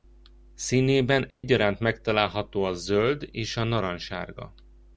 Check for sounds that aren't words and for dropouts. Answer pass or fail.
fail